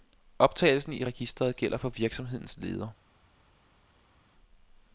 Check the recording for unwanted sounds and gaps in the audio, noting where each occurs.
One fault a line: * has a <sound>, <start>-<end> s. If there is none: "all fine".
all fine